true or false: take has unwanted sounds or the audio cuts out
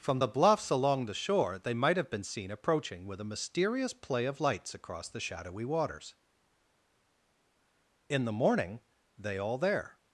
false